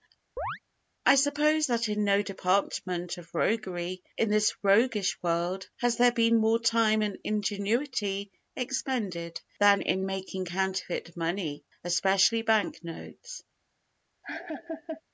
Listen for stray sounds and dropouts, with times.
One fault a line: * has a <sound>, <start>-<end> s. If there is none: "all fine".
* has a chirp, 0.4-0.6 s
* has a laugh, 14.2-15.0 s